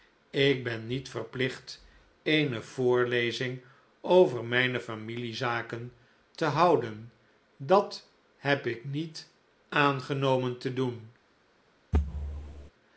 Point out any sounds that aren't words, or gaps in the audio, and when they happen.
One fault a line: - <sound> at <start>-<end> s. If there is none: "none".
- thud at 11.9-12.7 s